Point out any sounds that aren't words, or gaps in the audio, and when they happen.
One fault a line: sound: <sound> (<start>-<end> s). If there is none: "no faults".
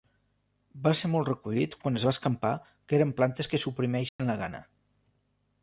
sound: dropout (4.1-4.2 s)